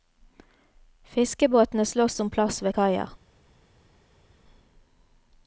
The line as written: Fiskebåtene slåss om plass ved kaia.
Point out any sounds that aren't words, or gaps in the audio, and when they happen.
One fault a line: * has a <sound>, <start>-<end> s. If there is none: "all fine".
all fine